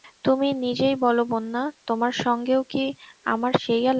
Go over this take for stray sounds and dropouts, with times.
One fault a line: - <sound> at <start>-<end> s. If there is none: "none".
none